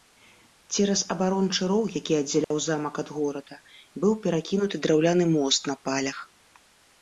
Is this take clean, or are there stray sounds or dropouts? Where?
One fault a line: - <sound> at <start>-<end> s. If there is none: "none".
- dropout at 2.4-2.5 s